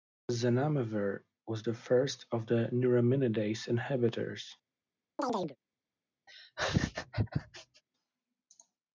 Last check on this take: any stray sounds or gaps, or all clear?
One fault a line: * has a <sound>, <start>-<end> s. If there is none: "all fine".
* has a chirp, 5.2-5.6 s
* has a laugh, 6.3-7.8 s